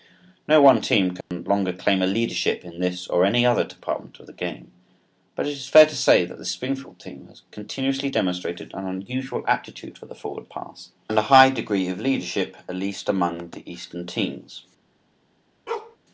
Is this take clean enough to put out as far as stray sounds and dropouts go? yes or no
no